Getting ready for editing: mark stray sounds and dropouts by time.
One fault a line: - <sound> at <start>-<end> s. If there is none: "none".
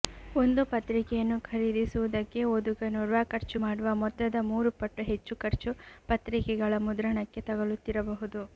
none